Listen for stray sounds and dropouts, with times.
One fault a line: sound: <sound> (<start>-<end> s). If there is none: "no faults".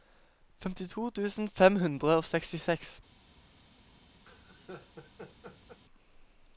sound: laugh (4.3-5.8 s)